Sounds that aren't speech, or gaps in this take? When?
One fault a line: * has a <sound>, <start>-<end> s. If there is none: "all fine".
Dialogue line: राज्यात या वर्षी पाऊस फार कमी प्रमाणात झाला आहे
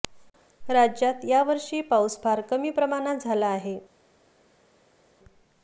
all fine